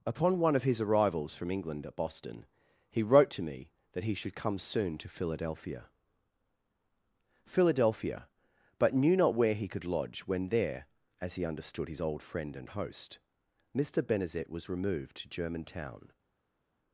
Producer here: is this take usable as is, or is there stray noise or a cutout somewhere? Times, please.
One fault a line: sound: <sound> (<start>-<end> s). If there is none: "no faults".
no faults